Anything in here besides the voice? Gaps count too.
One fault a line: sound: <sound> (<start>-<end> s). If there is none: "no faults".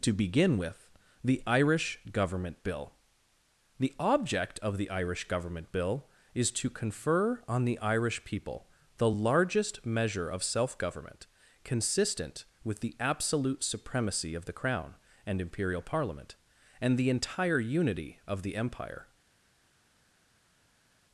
no faults